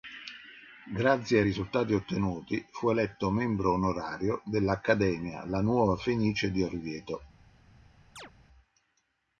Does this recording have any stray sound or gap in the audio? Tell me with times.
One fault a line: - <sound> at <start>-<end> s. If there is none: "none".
- chirp at 8.2-8.3 s